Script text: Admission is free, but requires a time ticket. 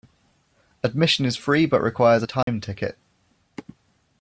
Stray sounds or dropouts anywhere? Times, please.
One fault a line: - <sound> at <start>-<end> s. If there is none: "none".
- dropout at 2.4-2.5 s